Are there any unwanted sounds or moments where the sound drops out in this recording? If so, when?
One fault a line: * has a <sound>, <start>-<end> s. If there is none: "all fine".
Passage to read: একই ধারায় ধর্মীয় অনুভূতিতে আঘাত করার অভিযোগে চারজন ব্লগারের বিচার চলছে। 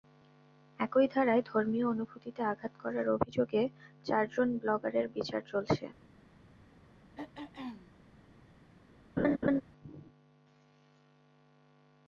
* has a throat clearing, 7.2-7.9 s
* has a laugh, 9.2-9.6 s